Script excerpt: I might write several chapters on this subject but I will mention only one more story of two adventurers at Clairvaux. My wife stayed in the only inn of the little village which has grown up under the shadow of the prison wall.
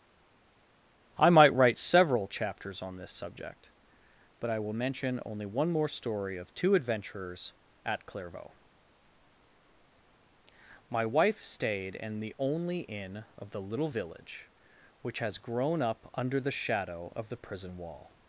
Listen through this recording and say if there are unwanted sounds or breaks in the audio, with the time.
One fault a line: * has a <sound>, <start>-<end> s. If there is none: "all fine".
all fine